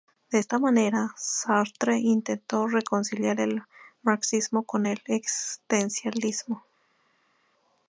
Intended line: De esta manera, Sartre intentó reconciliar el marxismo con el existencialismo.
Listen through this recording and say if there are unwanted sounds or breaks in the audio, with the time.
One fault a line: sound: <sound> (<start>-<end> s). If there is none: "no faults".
no faults